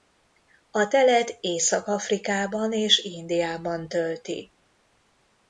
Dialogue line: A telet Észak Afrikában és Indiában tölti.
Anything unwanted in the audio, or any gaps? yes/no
no